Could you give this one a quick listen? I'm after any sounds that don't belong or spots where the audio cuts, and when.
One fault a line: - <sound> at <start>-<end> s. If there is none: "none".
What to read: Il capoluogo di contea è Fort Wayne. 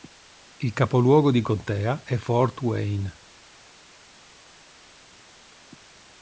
none